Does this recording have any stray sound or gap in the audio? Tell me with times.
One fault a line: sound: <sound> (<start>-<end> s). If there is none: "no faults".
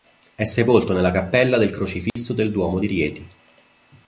sound: dropout (2.1-2.2 s)